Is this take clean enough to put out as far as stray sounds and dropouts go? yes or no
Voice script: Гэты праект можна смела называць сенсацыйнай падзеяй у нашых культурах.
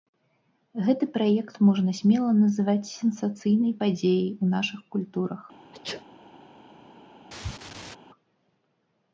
no